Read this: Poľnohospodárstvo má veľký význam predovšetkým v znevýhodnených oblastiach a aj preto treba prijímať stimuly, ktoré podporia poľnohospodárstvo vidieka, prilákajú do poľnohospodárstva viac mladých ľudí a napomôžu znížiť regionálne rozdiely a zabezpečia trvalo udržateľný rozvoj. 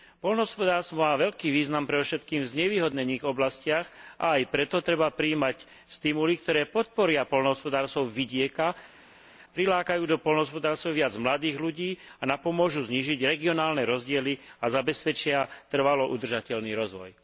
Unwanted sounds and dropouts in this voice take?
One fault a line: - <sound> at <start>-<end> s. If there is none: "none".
none